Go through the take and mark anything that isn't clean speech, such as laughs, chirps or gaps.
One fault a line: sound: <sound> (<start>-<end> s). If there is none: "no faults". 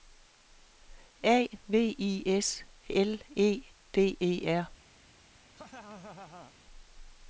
sound: laugh (5.5-6.6 s)